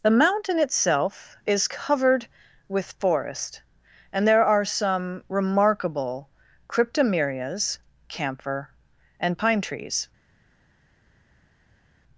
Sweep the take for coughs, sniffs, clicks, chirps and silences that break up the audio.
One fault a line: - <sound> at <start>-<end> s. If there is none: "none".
none